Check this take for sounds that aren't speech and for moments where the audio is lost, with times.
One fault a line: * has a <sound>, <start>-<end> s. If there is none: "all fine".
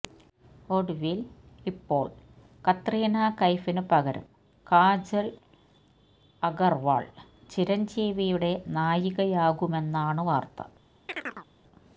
* has a chirp, 11.1-11.5 s